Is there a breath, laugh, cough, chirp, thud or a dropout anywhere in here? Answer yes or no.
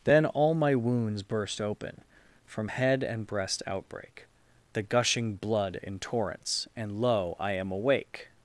no